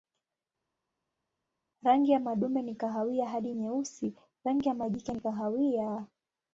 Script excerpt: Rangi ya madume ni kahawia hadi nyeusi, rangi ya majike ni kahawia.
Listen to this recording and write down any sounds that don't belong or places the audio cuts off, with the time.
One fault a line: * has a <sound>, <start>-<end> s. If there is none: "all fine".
all fine